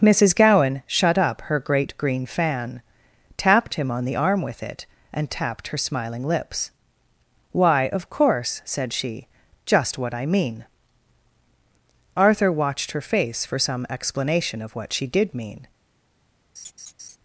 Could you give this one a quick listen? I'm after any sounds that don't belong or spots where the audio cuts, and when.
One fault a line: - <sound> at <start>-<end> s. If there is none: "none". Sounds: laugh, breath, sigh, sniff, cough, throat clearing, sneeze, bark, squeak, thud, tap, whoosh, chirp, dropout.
- laugh at 16.6-17.2 s